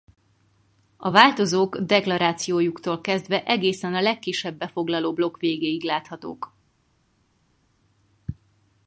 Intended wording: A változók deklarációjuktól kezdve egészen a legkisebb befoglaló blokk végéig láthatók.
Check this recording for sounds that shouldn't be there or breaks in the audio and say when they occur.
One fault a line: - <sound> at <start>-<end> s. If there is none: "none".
none